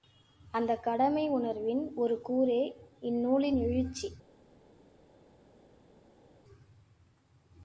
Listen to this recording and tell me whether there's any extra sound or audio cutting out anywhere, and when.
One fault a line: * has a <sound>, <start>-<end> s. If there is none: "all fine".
all fine